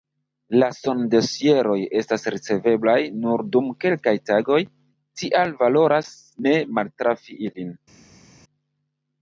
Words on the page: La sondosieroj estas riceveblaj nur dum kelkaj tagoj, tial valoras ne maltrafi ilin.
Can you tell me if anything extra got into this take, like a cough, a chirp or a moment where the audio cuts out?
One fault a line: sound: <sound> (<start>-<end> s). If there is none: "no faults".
no faults